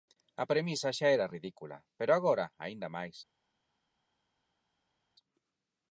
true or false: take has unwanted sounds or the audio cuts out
false